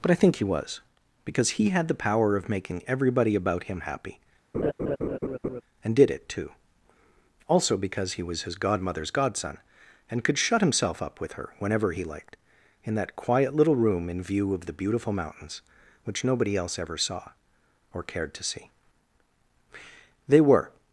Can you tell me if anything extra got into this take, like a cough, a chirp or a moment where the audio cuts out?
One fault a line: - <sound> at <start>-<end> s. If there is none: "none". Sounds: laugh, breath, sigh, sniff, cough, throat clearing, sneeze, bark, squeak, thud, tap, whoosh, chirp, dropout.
- laugh at 4.5-5.6 s